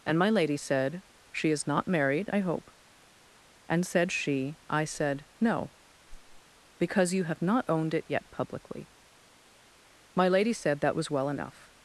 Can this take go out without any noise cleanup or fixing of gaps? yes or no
no